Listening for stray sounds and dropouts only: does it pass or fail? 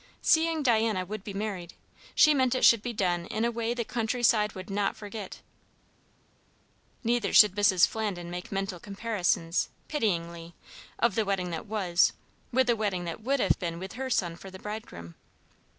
pass